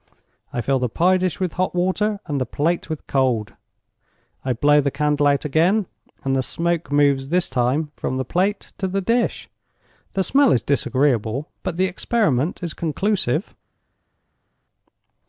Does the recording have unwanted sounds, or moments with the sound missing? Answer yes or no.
no